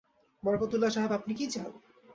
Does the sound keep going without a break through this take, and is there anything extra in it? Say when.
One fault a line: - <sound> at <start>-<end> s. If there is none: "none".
none